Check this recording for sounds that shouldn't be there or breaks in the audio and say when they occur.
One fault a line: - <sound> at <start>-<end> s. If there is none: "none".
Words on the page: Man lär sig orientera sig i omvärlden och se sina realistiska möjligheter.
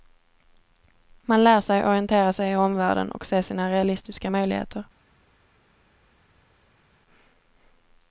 none